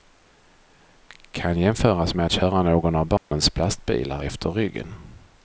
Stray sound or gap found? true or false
true